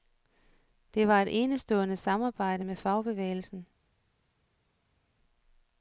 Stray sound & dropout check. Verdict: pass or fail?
pass